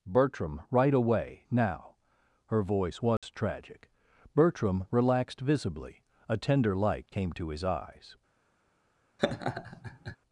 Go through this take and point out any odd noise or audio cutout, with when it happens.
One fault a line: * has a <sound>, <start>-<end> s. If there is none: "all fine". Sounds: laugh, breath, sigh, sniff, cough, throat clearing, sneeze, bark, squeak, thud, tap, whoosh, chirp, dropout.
* has a dropout, 3.2-3.2 s
* has a laugh, 9.2-10.2 s